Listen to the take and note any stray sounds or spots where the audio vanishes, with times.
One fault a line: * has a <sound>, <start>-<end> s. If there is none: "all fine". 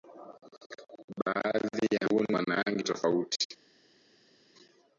all fine